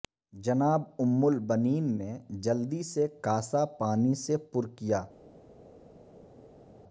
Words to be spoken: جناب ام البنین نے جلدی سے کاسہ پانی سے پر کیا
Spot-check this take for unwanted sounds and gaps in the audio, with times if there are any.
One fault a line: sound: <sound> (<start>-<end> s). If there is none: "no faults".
no faults